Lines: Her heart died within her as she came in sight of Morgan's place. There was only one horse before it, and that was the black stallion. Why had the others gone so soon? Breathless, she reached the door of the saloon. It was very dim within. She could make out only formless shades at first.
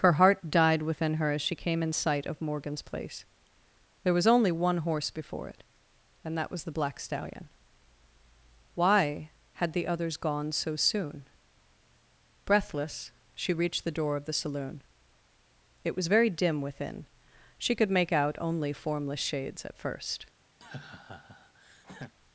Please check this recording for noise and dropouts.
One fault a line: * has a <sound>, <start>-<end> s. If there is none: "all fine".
* has a laugh, 20.6-22.1 s